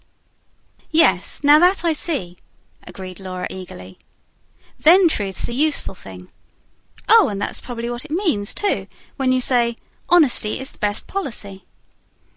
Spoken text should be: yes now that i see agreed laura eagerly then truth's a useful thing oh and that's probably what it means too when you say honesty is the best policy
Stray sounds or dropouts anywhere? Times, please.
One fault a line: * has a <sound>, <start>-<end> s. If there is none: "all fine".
all fine